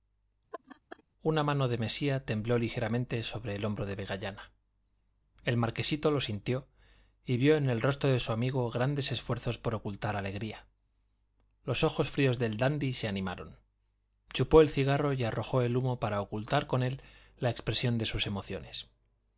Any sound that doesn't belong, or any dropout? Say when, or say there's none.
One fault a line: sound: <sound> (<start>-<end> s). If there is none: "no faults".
sound: laugh (0.5-1.0 s)